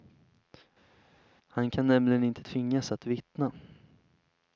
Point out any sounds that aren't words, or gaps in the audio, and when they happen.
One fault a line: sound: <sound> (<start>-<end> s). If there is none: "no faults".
no faults